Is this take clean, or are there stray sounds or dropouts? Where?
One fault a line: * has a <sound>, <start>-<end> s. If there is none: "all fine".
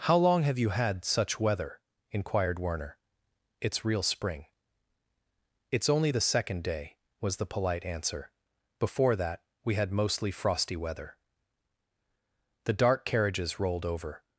all fine